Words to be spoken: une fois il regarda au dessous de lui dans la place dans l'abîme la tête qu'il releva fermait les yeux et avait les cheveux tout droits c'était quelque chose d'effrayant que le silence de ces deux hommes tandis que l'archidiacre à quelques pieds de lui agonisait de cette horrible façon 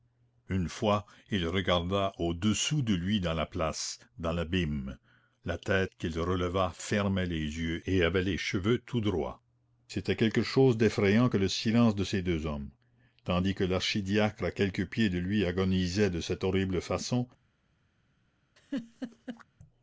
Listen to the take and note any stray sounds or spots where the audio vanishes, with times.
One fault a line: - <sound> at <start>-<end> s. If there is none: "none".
- laugh at 18.6-19.4 s